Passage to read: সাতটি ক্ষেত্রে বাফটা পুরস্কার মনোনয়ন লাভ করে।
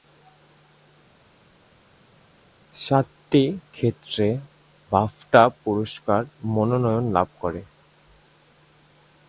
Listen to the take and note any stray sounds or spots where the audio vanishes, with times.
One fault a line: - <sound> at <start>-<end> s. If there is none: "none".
none